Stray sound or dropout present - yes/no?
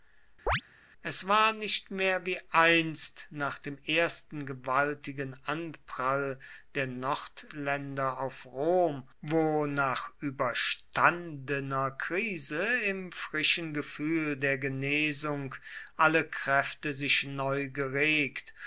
yes